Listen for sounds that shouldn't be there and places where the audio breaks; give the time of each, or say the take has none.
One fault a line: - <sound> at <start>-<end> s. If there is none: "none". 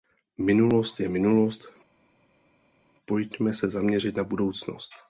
none